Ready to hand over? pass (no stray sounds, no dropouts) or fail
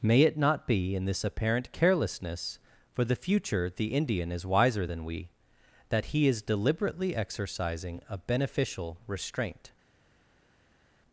pass